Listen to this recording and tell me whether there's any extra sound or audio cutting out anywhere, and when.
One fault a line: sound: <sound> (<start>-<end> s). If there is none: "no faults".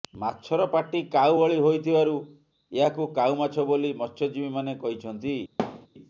sound: thud (5.6-5.9 s)